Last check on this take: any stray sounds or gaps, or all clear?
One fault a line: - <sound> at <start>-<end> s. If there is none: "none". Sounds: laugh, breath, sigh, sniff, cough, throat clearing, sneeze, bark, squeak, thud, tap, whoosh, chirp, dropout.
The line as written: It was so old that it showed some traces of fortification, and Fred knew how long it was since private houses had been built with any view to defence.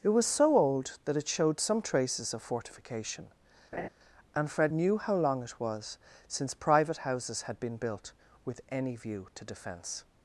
- laugh at 3.7-3.9 s